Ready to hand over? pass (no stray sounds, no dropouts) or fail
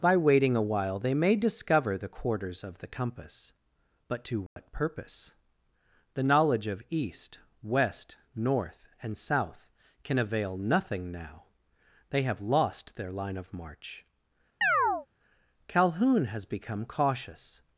fail